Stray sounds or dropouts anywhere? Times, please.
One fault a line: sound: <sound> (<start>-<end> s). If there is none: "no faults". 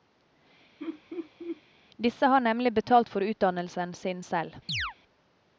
sound: laugh (0.8-1.6 s)
sound: chirp (4.7-4.9 s)